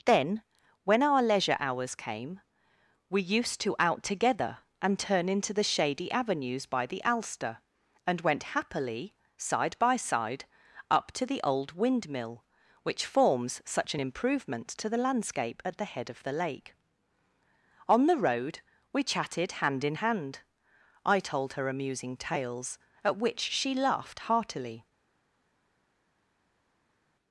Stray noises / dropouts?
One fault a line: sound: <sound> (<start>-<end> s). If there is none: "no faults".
no faults